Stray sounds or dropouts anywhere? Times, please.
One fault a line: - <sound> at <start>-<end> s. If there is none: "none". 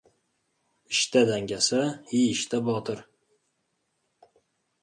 none